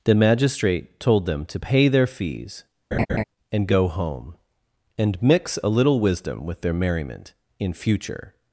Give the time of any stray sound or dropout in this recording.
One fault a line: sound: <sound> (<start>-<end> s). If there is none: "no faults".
sound: laugh (2.9-3.2 s)